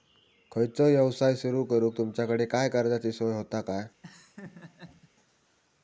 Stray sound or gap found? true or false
true